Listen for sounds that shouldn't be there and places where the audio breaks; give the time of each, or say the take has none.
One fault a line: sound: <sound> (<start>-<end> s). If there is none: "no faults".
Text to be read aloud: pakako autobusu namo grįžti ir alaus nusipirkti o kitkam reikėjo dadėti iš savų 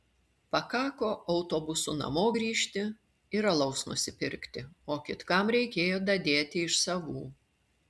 no faults